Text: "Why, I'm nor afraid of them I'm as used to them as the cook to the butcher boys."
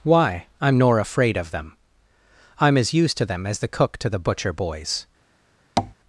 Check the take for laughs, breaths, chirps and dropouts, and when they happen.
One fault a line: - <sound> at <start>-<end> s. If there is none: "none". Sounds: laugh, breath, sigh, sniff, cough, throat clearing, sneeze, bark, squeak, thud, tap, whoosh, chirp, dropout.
- tap at 5.8-5.9 s